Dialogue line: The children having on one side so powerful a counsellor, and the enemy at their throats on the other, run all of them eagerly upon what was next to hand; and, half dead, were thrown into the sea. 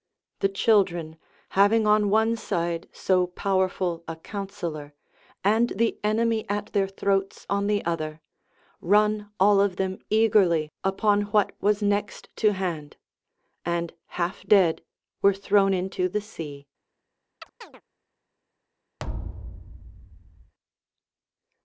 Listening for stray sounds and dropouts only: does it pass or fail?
fail